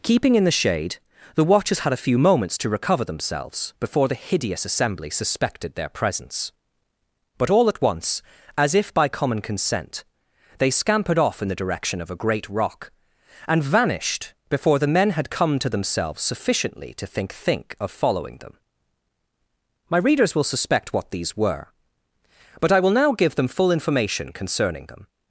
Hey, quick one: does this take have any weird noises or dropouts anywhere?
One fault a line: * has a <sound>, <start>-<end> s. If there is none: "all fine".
all fine